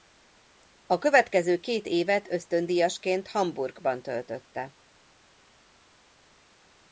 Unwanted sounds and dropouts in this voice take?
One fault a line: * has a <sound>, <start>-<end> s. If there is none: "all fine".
all fine